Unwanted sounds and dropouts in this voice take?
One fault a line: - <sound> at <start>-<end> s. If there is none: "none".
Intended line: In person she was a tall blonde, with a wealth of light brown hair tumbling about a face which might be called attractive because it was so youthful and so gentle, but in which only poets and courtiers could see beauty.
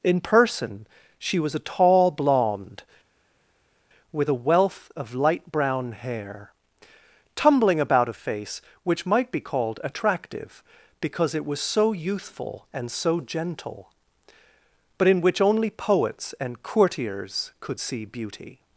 none